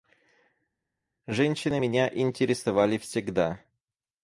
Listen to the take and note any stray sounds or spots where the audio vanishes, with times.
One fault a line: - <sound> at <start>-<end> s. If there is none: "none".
none